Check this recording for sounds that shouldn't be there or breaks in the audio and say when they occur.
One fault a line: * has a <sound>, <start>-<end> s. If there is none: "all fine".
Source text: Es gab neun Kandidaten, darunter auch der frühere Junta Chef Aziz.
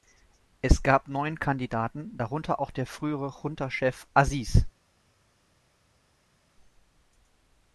all fine